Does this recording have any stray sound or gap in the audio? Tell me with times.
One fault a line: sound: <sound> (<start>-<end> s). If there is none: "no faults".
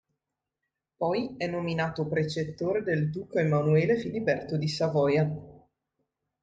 no faults